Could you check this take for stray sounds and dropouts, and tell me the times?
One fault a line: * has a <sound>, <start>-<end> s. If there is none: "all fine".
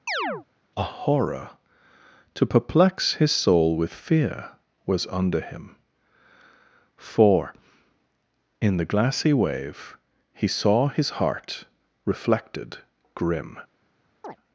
* has a chirp, 0.1-0.5 s
* has a chirp, 14.2-14.4 s